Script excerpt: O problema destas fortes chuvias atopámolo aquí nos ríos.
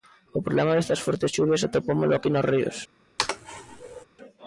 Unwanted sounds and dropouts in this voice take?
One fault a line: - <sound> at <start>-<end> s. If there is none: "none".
- sneeze at 3.2-4.1 s